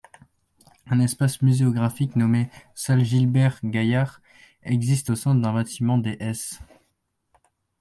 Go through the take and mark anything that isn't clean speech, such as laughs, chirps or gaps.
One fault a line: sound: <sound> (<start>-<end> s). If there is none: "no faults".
no faults